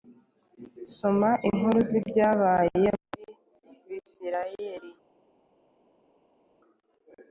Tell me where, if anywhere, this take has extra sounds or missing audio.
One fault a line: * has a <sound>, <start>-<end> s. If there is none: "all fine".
all fine